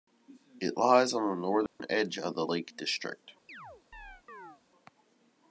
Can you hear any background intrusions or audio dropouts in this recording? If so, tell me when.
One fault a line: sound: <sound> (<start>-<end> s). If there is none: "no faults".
sound: dropout (1.7-1.8 s)
sound: chirp (3.5-4.6 s)